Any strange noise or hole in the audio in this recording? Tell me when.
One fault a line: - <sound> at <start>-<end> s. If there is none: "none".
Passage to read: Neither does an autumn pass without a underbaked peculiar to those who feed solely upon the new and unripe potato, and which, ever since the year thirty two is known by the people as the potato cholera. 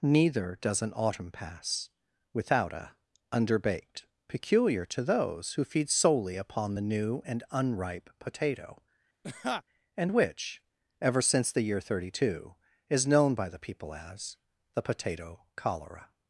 - laugh at 9.2-9.6 s